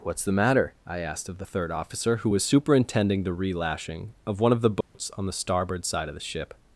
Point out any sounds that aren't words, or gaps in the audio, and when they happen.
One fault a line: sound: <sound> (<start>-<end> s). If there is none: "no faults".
sound: dropout (4.8-4.9 s)